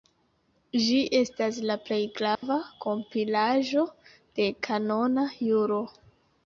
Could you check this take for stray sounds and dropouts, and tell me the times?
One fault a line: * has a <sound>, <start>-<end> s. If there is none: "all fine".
* has a dropout, 2.3-2.4 s